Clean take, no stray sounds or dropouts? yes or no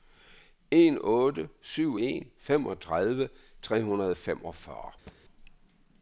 no